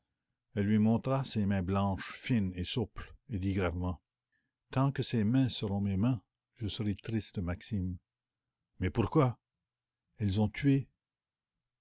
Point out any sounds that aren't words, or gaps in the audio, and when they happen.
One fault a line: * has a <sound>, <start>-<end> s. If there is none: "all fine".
all fine